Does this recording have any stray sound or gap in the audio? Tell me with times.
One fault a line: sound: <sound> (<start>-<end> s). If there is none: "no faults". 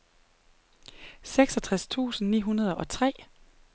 no faults